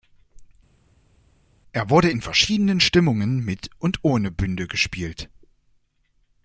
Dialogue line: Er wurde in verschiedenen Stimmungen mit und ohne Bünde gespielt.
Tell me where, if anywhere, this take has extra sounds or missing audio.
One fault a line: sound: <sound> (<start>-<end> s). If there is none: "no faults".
no faults